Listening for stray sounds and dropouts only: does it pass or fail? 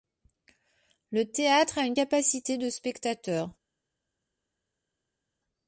pass